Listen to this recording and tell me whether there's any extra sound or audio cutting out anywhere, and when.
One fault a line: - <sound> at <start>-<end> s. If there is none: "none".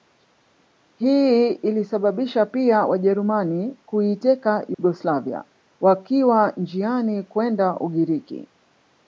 - dropout at 4.7-4.8 s